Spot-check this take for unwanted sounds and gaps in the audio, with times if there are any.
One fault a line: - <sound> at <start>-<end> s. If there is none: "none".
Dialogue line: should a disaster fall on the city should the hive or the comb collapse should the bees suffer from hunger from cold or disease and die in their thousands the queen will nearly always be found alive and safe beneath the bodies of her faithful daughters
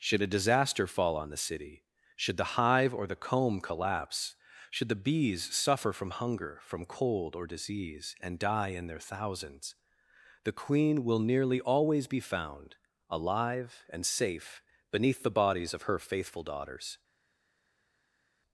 none